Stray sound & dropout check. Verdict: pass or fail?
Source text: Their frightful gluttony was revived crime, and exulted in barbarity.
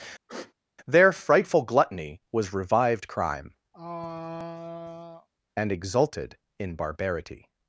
fail